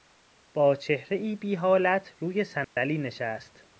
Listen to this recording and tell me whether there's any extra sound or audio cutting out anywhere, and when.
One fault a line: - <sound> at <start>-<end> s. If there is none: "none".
- dropout at 2.6-2.8 s